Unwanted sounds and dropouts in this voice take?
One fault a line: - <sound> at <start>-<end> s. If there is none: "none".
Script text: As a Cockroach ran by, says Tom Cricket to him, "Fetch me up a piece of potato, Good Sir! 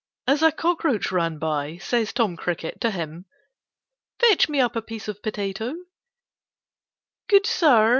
none